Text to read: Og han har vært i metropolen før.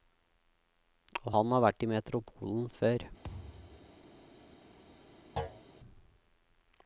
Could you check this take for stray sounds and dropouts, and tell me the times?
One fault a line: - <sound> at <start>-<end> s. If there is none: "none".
- thud at 3.2-4.0 s
- thud at 5.4-5.6 s